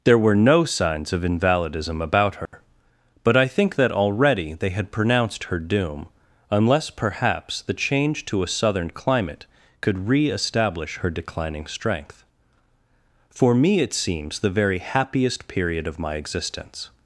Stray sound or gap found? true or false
true